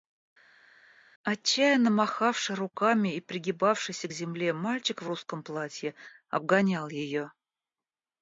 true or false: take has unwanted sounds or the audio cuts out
false